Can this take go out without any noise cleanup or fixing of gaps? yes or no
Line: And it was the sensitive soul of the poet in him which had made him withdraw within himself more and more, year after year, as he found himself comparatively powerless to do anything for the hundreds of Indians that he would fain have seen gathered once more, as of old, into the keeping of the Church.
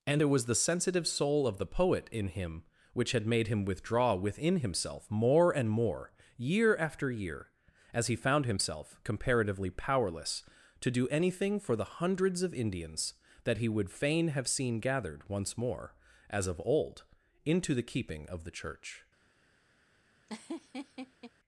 no